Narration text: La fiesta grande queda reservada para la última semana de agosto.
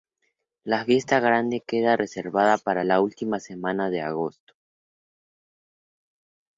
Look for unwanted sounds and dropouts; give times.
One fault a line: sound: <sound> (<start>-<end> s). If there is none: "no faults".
no faults